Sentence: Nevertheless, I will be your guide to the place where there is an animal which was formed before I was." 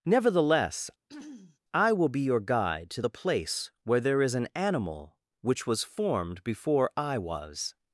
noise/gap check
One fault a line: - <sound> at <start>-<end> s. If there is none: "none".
- throat clearing at 1.1-1.6 s